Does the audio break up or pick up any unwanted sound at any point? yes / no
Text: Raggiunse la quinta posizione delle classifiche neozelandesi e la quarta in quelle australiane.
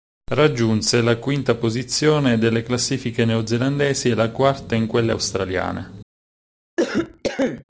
yes